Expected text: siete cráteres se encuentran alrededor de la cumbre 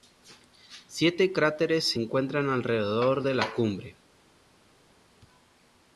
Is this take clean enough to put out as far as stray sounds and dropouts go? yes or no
yes